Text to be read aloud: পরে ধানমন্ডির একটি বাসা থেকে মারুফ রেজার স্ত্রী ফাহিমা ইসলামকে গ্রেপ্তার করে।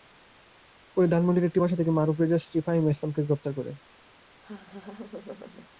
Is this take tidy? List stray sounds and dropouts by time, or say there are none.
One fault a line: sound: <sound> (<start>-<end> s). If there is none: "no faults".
sound: laugh (4.4-5.7 s)